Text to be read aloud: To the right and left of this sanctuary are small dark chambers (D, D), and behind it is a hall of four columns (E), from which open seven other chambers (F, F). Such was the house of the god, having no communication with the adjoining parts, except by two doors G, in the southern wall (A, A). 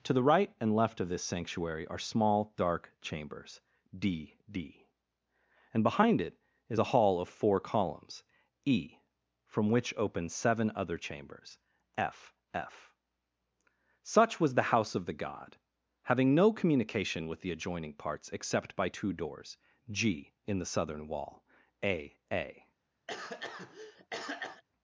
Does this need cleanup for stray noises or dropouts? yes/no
yes